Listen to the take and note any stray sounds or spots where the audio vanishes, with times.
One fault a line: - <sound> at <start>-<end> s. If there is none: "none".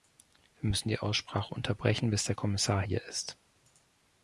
none